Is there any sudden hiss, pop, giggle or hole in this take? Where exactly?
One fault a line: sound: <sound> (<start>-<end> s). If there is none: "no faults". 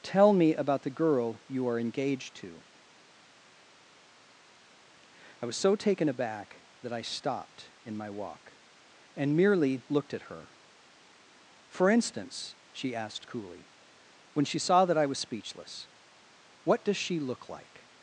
no faults